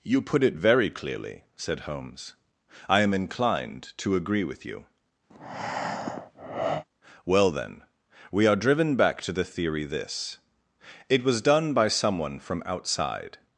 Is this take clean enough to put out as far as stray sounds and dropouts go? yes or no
no